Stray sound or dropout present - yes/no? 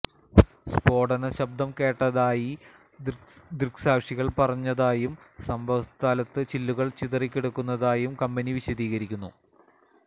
no